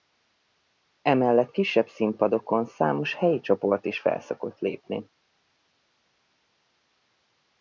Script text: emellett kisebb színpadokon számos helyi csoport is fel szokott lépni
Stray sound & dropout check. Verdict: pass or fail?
pass